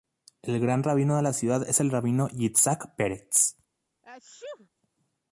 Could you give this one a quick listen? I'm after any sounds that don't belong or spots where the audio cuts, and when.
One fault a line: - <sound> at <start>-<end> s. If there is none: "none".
- sneeze at 4.0-4.7 s